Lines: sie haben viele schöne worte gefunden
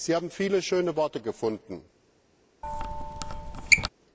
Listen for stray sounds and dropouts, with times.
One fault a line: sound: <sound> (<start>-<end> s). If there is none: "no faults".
sound: squeak (2.6-3.9 s)